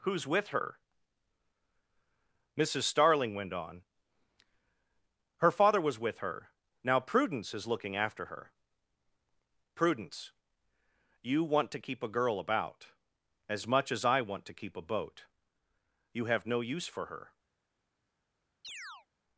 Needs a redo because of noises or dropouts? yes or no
yes